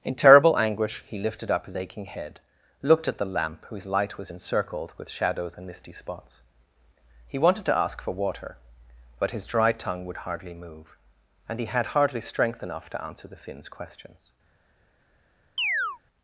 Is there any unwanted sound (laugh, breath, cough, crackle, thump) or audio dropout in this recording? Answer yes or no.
yes